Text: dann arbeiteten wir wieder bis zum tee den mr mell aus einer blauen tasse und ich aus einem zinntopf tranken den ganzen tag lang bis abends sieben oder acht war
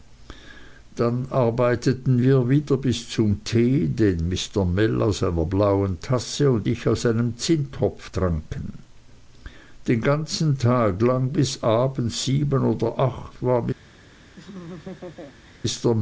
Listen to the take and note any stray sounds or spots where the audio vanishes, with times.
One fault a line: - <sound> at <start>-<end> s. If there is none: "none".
- laugh at 14.4-15.6 s